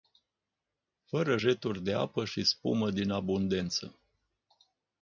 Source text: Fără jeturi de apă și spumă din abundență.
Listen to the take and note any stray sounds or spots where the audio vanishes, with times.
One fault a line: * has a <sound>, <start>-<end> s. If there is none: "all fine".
all fine